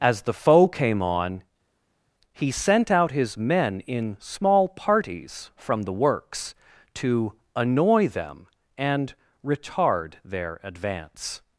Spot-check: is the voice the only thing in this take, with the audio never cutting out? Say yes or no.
yes